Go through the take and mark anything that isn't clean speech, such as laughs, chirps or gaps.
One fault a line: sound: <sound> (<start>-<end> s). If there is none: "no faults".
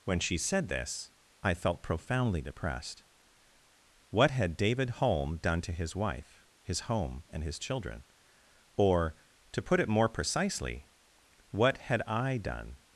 no faults